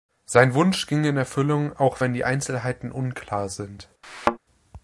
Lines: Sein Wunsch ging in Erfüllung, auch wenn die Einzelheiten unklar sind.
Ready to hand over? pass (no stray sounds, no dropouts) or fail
fail